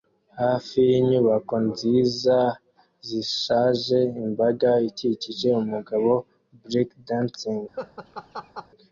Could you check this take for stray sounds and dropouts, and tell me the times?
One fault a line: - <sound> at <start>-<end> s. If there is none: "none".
- laugh at 7.7-8.7 s